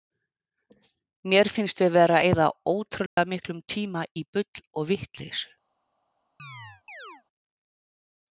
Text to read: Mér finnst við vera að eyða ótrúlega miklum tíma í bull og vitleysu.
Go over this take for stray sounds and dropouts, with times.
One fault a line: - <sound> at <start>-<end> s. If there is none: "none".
- dropout at 3.1-3.2 s
- chirp at 6.4-7.2 s